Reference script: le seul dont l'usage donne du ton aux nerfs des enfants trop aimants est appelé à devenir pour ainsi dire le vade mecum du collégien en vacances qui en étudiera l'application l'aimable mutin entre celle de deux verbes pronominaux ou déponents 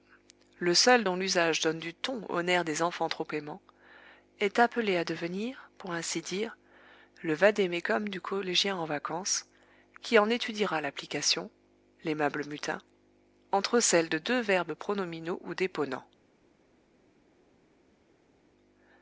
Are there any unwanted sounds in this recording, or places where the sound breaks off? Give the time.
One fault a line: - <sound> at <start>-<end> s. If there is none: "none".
none